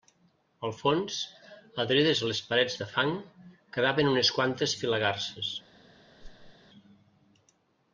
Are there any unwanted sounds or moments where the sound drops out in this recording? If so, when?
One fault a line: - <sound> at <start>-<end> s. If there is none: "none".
- whoosh at 6.2-6.6 s